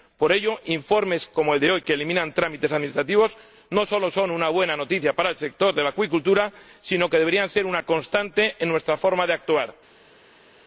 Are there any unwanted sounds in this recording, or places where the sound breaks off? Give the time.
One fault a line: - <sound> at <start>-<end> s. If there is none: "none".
none